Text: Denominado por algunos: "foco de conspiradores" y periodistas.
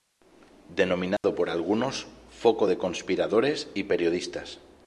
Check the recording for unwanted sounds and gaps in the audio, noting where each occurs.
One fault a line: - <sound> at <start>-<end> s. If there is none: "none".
- dropout at 1.2-1.2 s